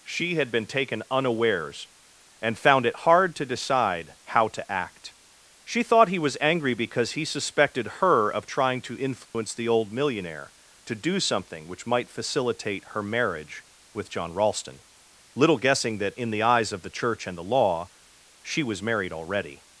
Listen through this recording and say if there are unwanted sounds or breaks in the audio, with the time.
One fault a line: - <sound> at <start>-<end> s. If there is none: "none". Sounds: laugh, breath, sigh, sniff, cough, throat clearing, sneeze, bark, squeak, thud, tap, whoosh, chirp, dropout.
- dropout at 9.2-9.3 s